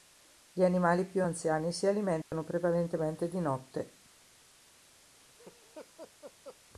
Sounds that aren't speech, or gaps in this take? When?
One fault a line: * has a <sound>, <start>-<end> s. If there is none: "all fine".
* has a dropout, 2.2-2.3 s
* has a laugh, 5.1-6.6 s